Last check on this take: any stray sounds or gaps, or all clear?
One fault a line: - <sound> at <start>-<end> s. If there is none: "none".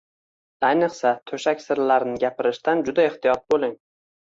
none